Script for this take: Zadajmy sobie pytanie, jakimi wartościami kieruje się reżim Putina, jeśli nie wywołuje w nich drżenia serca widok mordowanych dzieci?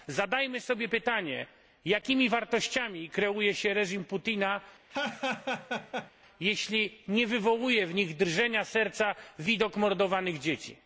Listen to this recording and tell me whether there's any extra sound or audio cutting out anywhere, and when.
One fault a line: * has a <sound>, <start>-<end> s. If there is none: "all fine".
* has a laugh, 4.9-6.1 s